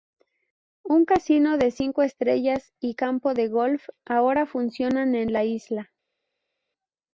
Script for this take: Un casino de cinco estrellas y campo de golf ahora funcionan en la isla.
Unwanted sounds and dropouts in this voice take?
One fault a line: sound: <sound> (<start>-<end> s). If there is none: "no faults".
no faults